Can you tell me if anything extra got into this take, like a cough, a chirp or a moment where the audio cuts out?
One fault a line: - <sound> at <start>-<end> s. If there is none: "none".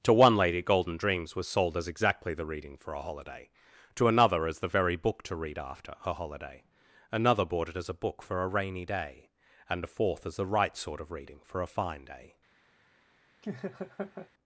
- laugh at 13.4-14.3 s